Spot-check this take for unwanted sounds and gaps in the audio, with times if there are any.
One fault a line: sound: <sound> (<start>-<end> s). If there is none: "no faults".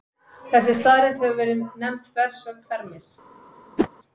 sound: whoosh (3.8-3.9 s)